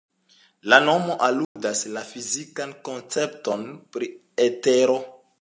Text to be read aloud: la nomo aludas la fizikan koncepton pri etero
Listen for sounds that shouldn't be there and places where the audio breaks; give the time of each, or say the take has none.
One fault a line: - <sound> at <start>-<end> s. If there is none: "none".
- dropout at 1.4-1.6 s